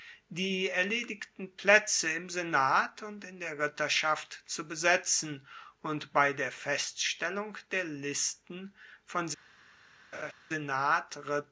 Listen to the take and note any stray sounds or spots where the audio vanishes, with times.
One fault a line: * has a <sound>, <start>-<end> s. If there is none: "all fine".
* has a laugh, 10.1-10.3 s